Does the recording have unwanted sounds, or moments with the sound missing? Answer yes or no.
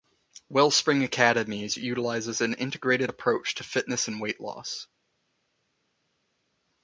no